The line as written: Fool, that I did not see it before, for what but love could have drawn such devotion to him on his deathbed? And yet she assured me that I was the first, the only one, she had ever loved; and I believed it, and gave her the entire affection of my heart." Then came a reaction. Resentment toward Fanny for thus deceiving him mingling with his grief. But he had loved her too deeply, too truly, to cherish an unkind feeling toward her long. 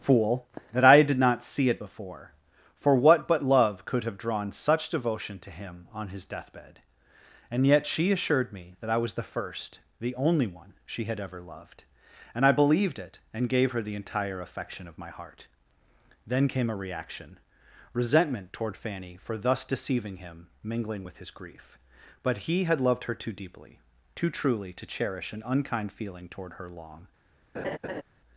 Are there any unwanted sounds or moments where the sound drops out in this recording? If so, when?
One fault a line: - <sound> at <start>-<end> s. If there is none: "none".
- laugh at 27.5-28.0 s